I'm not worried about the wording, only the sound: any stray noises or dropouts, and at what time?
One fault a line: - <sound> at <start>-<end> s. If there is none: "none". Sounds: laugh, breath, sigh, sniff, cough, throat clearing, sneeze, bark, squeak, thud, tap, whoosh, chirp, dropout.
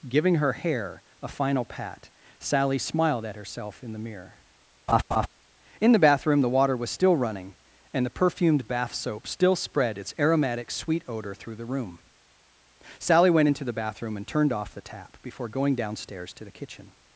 - laugh at 4.9-5.3 s